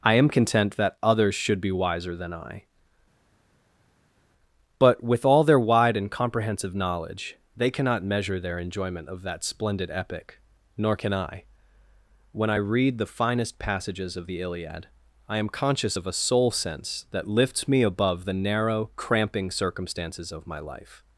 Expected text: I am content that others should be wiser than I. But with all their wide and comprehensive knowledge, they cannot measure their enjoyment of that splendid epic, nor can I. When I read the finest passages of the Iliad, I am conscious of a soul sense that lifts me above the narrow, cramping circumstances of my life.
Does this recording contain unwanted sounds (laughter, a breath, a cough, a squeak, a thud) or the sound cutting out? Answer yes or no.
no